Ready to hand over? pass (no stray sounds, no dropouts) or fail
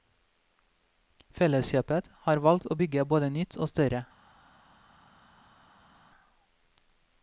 pass